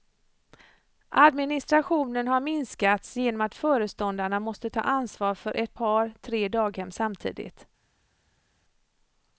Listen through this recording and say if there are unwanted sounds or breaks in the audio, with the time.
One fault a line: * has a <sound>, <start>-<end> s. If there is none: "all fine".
all fine